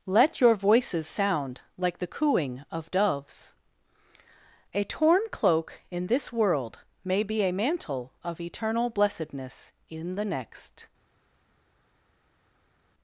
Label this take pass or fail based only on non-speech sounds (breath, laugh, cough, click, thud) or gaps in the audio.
pass